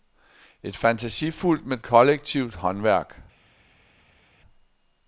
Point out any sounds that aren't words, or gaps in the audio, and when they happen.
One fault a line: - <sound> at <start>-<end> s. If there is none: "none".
none